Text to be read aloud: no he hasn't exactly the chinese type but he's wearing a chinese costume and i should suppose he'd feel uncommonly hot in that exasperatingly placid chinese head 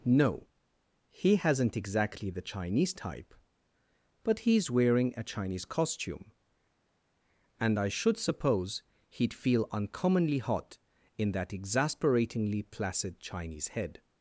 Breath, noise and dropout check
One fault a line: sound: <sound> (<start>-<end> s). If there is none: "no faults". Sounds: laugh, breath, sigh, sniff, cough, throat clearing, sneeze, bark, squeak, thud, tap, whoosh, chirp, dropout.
no faults